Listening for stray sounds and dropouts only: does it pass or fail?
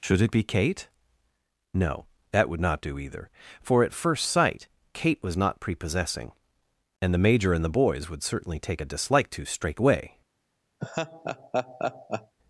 fail